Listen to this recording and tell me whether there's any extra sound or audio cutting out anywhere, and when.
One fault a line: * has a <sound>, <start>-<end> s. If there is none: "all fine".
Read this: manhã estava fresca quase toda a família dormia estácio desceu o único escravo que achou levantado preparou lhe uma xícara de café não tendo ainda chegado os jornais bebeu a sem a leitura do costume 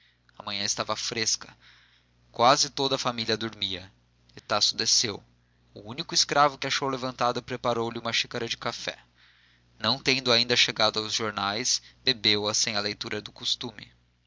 * has a dropout, 4.4-4.5 s